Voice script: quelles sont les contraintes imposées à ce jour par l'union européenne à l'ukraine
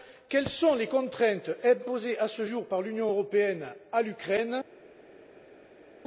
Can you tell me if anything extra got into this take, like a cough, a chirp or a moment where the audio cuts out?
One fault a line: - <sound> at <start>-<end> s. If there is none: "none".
none